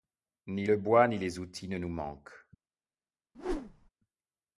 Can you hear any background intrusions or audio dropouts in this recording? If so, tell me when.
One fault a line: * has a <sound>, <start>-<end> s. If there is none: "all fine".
* has a whoosh, 3.3-3.9 s